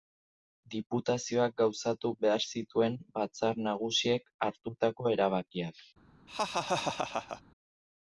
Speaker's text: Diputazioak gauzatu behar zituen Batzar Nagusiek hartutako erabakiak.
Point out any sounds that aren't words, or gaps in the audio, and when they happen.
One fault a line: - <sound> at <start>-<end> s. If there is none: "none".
- laugh at 6.3-7.4 s